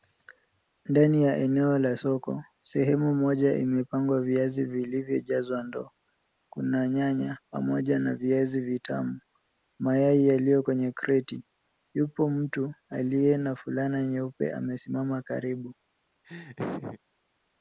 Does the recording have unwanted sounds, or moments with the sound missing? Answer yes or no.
yes